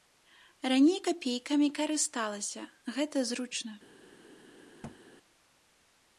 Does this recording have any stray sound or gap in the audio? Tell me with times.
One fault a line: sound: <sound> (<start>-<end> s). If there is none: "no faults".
sound: thud (4.8-5.0 s)